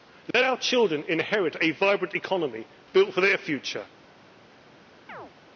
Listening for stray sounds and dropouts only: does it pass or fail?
fail